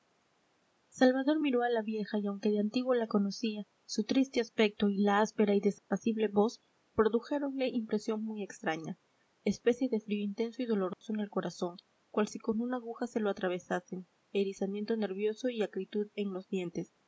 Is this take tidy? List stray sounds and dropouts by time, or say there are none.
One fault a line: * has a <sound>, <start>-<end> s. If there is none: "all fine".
* has a dropout, 5.8-5.9 s
* has a dropout, 10.9-11.0 s